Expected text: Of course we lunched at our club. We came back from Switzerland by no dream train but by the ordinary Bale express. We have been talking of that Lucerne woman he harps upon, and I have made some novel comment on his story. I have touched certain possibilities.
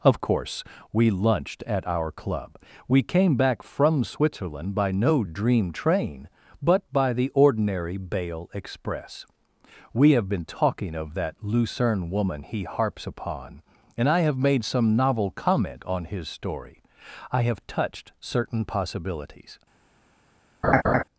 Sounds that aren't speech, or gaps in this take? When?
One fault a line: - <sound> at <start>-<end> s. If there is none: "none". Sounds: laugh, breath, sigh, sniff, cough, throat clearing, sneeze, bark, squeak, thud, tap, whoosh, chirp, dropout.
- laugh at 20.6-21.0 s